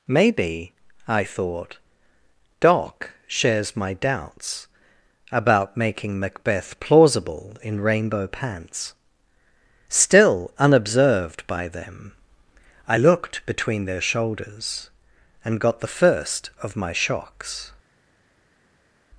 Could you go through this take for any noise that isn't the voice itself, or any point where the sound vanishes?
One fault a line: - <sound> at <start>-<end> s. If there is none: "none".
none